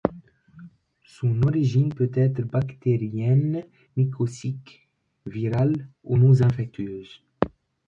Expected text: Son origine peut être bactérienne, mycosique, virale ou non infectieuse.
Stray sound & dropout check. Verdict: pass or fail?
pass